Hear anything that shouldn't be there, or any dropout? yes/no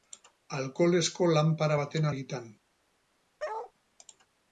yes